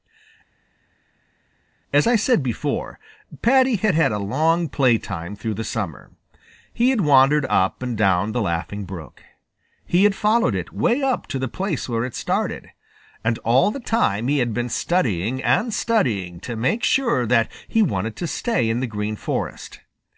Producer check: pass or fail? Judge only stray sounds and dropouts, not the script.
pass